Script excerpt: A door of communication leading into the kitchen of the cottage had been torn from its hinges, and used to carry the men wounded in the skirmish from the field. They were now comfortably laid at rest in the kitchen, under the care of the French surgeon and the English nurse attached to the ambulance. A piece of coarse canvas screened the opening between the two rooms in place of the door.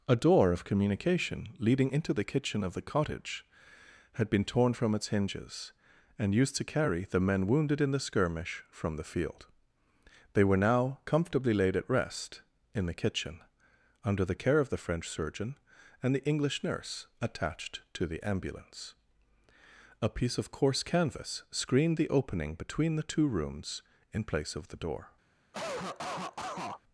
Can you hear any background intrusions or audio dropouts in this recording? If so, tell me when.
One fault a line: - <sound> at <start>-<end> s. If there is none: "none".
- cough at 25.5-26.8 s